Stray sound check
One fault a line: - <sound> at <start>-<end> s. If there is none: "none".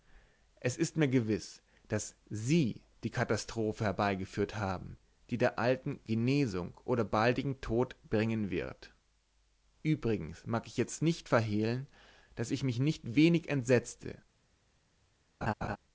- laugh at 15.4-15.8 s